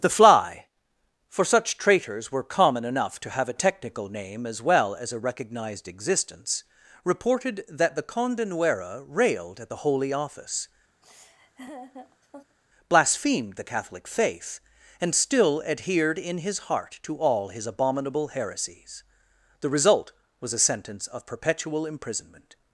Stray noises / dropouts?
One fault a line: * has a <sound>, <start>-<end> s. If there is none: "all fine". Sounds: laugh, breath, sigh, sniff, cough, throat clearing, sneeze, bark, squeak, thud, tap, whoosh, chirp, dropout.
* has a laugh, 11.0-12.6 s